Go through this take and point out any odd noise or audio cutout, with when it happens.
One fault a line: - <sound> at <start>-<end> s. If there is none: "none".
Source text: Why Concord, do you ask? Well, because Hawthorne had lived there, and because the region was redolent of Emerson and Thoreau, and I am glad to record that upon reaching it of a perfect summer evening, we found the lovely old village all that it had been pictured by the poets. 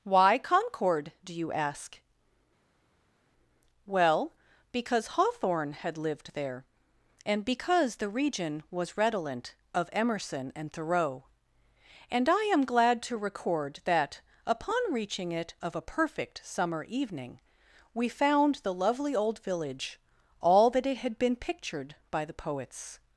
none